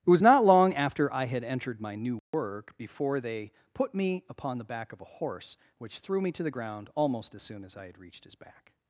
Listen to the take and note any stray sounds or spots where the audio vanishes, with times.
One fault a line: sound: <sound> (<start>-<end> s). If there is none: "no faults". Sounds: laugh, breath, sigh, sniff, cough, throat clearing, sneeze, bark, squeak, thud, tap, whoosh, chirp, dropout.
sound: dropout (2.2-2.3 s)